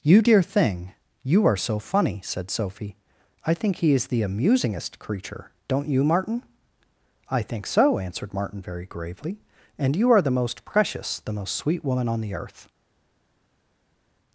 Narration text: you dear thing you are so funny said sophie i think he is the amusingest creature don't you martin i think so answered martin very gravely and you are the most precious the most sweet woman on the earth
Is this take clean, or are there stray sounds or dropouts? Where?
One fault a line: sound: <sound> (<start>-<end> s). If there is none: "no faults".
no faults